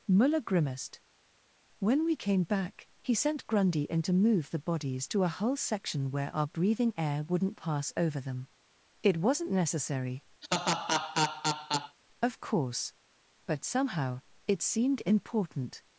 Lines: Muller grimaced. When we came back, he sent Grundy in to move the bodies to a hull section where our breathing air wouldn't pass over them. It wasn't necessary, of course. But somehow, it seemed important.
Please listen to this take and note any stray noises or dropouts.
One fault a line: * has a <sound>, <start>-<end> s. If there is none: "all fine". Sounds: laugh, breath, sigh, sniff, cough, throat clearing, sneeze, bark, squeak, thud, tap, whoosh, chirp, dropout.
* has a laugh, 10.4-12.0 s